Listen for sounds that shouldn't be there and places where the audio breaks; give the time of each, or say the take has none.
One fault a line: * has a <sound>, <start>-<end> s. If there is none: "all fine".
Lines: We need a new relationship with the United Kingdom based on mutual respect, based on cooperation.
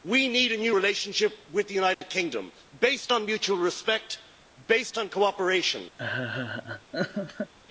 * has a dropout, 1.9-2.0 s
* has a laugh, 6.0-7.5 s